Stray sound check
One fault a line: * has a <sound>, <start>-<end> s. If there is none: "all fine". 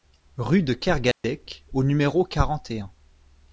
* has a dropout, 1.1-1.2 s